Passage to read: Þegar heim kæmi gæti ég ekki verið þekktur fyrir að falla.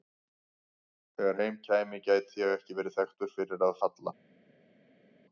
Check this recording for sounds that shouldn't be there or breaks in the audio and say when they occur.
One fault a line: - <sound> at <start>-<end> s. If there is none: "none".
none